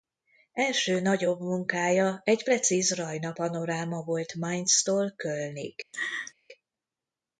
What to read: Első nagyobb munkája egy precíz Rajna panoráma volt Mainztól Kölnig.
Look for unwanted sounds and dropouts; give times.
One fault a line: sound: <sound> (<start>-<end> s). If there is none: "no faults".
sound: laugh (5.9-6.3 s)